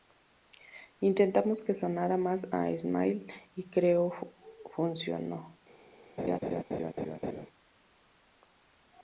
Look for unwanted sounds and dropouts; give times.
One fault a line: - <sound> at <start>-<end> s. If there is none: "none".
- laugh at 6.2-7.5 s